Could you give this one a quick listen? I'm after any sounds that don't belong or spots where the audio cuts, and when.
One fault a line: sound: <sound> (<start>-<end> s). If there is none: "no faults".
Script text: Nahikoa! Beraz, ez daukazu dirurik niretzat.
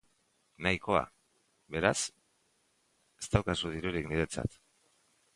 no faults